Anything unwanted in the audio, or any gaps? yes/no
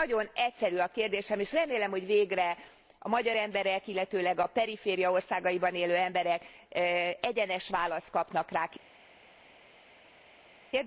no